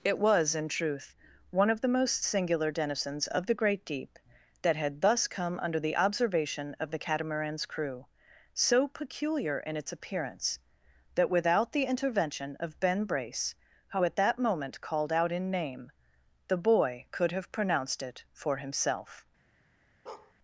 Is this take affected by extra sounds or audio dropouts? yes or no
yes